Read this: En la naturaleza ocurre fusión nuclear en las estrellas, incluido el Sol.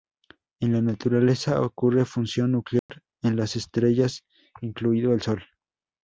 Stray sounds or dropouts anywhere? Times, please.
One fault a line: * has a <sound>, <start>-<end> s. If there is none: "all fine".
* has a dropout, 2.8-2.9 s